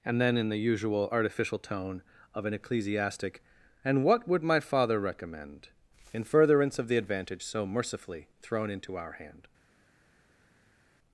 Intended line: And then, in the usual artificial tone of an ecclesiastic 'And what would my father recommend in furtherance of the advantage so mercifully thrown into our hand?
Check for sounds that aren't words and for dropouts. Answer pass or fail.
pass